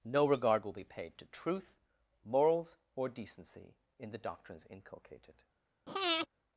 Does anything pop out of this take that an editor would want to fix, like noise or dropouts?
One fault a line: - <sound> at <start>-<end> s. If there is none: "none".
- breath at 5.9-6.3 s